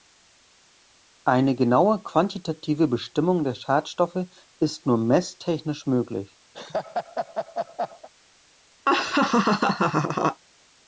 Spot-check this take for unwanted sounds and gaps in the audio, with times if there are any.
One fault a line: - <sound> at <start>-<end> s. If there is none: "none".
- laugh at 6.5-8.1 s
- laugh at 8.9-10.4 s